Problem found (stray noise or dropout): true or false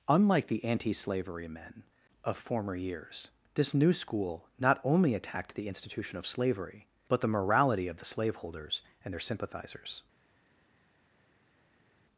false